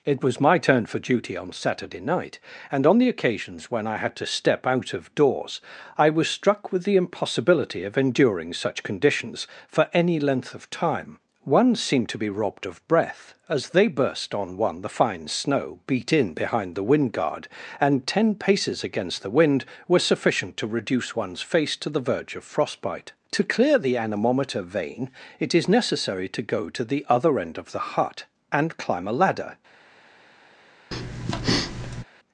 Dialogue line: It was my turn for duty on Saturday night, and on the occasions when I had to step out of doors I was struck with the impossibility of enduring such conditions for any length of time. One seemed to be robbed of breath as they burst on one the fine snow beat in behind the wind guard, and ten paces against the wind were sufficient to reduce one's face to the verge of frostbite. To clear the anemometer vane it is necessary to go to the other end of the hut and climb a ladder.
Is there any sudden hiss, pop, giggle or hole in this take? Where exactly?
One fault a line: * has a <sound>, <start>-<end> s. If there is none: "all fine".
* has a breath, 30.9-32.0 s